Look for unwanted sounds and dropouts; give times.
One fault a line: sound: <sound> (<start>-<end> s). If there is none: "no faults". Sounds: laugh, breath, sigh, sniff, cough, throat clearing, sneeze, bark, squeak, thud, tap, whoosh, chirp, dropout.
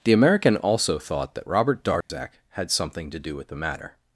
sound: dropout (2.0-2.1 s)